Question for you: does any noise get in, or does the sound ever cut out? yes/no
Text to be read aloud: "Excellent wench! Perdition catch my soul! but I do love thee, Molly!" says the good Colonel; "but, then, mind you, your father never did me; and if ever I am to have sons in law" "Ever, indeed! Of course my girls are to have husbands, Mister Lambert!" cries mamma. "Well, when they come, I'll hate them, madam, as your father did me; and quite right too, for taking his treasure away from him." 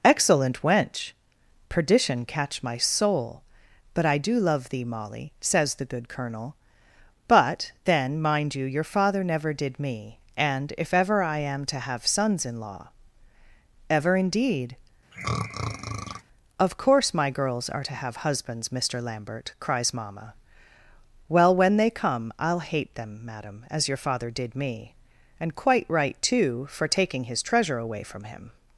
yes